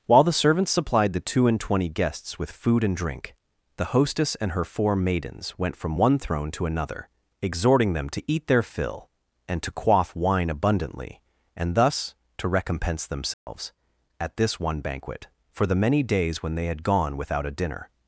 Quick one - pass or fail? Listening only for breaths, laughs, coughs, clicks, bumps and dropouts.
fail